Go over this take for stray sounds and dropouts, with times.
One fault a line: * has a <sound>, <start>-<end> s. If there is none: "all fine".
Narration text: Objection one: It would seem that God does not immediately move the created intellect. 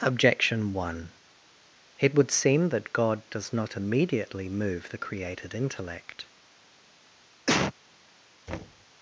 * has a cough, 7.5-7.7 s
* has a thud, 8.5-8.9 s